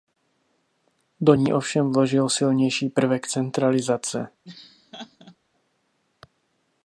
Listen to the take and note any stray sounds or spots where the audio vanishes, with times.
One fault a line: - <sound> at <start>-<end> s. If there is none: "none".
- laugh at 4.4-5.4 s